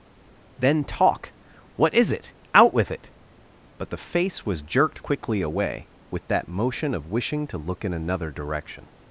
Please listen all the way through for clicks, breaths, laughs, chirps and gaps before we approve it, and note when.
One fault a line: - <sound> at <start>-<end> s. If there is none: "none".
none